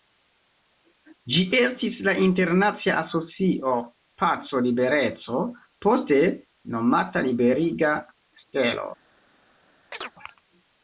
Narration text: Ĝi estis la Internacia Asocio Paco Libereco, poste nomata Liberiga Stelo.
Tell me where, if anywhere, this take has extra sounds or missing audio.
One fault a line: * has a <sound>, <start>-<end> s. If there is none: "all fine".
* has a chirp, 9.9-10.1 s